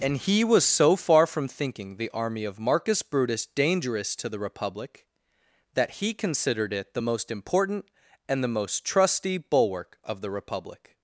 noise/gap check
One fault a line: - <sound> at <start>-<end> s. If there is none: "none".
none